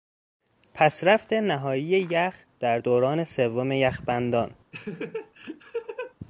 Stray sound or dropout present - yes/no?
yes